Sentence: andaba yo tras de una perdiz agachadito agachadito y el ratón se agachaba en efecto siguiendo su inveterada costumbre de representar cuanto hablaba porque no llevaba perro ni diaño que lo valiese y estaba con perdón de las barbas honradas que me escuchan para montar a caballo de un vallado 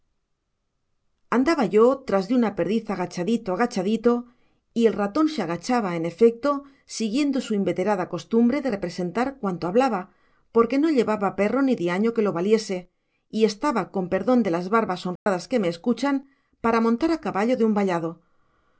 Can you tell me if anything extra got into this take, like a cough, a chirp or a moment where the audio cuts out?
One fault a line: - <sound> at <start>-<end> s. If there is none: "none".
- dropout at 15.2-15.3 s